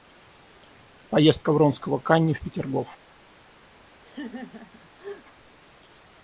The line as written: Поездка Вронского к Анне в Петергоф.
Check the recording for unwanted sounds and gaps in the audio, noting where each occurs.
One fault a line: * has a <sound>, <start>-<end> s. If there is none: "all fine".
* has a laugh, 4.0-5.3 s